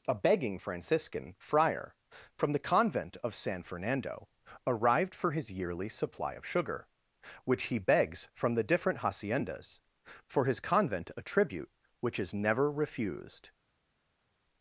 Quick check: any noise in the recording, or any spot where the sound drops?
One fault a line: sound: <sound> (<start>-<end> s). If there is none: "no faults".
no faults